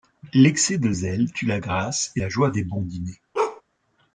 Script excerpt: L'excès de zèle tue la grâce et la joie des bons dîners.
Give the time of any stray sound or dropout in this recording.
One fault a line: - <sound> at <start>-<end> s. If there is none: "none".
- bark at 3.3-3.6 s